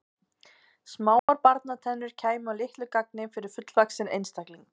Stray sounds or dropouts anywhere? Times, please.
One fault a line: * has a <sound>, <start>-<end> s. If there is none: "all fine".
* has a dropout, 1.2-1.3 s